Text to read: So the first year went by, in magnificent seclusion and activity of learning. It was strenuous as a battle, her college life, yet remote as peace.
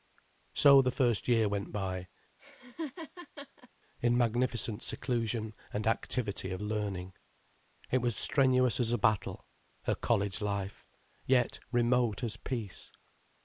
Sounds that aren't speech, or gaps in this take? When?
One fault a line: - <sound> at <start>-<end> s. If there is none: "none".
- laugh at 2.4-3.7 s